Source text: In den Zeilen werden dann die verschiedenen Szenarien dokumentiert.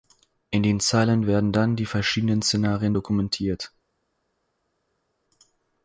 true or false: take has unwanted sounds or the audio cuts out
false